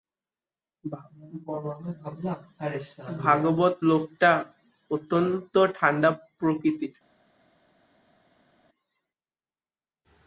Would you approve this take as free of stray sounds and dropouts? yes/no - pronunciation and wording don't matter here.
yes